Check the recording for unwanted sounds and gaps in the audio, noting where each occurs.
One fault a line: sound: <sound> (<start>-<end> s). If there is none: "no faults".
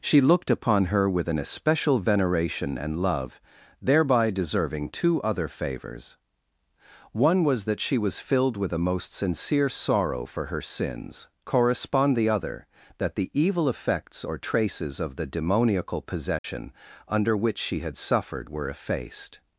sound: dropout (16.4-16.4 s)